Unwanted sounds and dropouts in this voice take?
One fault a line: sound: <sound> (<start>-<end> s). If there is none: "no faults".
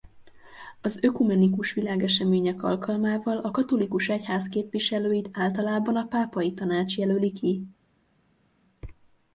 no faults